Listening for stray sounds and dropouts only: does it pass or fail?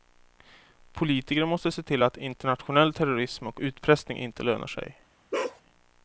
fail